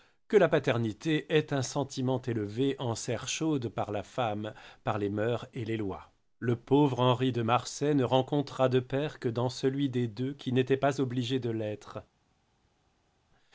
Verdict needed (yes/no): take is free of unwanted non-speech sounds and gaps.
yes